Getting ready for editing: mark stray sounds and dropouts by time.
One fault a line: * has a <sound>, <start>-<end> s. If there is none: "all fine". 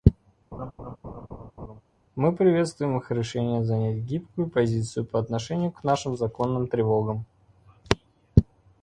* has a laugh, 0.5-1.8 s